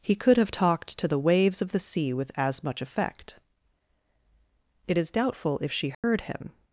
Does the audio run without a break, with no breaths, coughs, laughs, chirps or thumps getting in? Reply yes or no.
no